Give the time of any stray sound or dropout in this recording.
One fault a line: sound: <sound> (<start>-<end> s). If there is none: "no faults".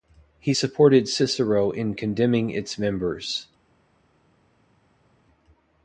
no faults